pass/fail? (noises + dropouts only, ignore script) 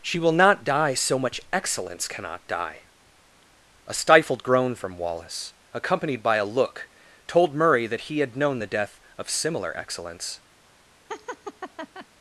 fail